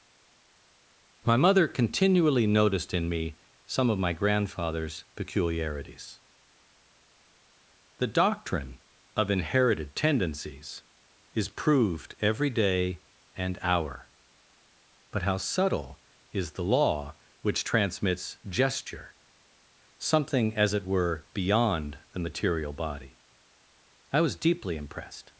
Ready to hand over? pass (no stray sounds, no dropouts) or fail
pass